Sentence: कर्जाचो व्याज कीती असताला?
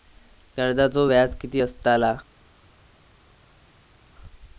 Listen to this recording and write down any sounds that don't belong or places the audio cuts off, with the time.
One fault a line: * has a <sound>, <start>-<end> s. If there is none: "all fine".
all fine